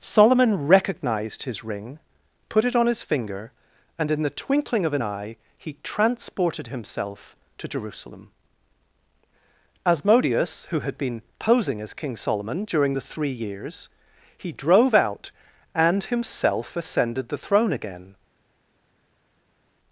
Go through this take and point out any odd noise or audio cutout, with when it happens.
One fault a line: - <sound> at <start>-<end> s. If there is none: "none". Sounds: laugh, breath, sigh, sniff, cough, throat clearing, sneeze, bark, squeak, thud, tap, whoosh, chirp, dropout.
none